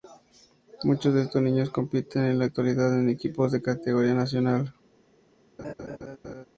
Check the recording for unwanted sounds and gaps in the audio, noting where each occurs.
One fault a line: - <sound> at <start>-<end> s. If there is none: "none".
- laugh at 5.6-6.5 s